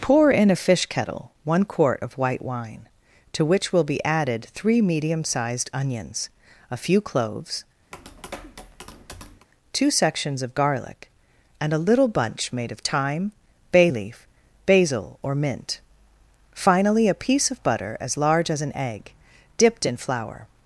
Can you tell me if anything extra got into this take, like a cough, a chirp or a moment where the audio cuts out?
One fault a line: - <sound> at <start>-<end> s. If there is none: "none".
- tap at 7.9-9.5 s